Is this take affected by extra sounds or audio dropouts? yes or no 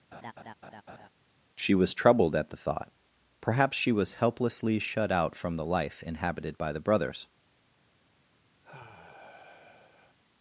yes